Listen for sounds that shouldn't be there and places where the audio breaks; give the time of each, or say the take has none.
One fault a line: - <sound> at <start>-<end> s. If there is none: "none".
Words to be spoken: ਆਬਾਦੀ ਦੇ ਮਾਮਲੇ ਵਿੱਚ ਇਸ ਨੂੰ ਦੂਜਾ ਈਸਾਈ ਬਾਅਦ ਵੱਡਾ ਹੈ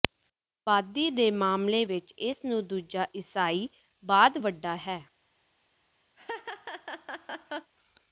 - laugh at 6.2-7.7 s